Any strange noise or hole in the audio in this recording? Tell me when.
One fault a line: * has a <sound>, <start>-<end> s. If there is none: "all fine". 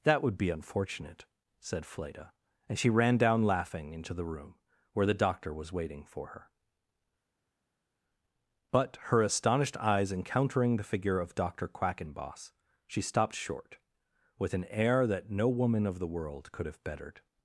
all fine